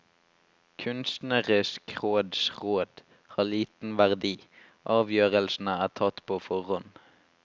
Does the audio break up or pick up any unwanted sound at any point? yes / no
no